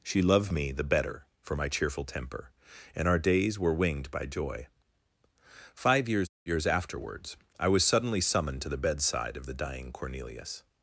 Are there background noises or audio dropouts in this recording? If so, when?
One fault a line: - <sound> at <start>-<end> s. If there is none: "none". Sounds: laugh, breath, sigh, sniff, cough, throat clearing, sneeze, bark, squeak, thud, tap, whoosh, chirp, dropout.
none